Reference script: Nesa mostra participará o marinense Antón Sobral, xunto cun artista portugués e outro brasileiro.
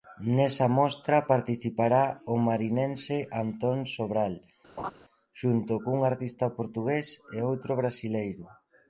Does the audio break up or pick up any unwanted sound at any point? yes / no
yes